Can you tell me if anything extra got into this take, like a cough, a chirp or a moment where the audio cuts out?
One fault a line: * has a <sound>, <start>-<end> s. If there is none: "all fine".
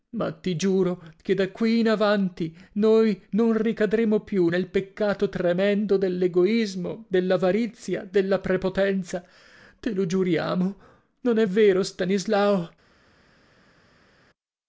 all fine